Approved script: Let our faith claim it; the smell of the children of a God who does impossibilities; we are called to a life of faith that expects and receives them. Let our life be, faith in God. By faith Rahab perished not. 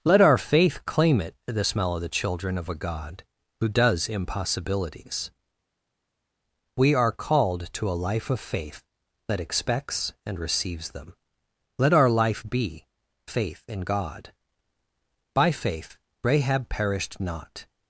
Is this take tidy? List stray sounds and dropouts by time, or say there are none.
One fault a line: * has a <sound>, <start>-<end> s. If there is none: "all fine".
all fine